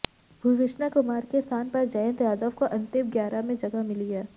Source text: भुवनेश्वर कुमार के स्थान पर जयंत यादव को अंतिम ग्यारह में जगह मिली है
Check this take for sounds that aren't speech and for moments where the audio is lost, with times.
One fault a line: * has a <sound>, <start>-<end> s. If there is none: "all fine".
all fine